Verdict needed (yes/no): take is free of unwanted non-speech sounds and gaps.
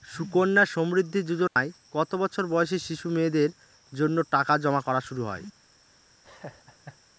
no